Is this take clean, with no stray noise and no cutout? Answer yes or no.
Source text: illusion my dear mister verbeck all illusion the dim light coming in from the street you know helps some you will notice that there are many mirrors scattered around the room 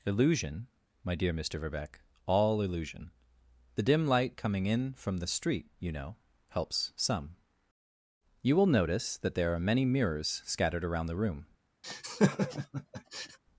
no